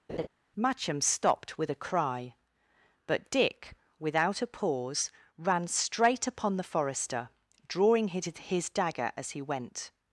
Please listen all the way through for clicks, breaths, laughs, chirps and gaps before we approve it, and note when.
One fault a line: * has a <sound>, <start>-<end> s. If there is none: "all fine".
* has a laugh, 0.1-0.3 s